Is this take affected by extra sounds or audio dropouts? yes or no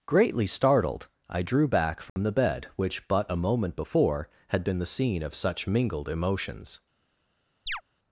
yes